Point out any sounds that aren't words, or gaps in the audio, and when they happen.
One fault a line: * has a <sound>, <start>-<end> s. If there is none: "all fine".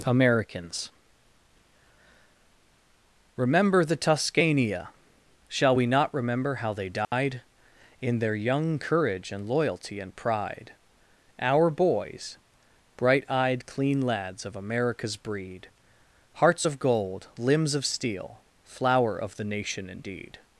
* has a dropout, 7.0-7.1 s